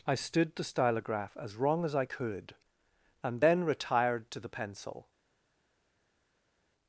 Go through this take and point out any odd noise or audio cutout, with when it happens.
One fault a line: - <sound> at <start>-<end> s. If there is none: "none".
none